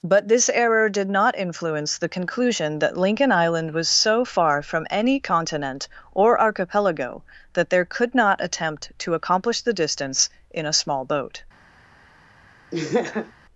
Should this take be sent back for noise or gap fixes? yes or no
yes